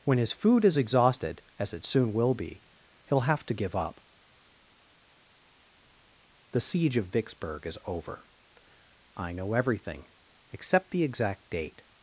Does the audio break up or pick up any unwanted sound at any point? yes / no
no